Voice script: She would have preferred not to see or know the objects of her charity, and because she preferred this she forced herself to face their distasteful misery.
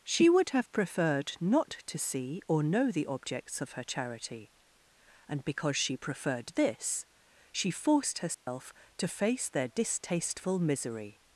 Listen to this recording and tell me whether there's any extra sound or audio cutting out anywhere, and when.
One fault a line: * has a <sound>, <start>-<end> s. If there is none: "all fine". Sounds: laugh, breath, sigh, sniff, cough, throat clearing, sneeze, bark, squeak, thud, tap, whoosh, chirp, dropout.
* has a dropout, 8.3-8.5 s